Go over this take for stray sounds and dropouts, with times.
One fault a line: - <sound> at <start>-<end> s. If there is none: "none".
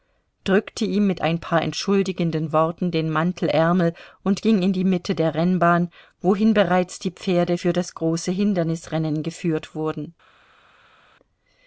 none